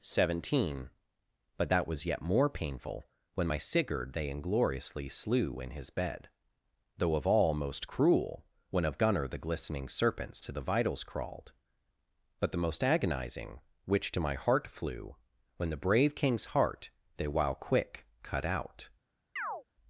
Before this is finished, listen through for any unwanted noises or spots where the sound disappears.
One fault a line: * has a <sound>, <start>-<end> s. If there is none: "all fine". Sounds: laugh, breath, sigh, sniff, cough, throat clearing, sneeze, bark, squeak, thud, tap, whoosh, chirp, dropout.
* has a chirp, 19.4-19.6 s